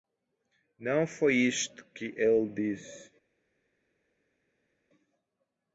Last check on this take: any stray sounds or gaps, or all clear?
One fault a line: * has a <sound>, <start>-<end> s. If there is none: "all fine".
all fine